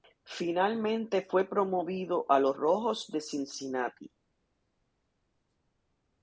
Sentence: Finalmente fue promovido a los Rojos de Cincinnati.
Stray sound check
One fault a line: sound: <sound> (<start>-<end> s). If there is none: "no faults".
no faults